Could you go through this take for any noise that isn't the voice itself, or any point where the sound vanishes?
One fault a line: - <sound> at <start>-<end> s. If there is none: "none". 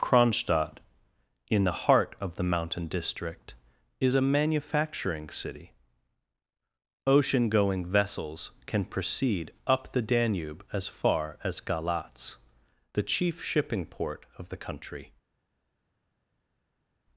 none